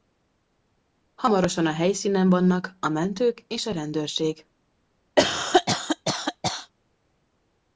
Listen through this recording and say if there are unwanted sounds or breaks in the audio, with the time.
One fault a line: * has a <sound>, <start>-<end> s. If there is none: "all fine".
* has a cough, 5.2-6.7 s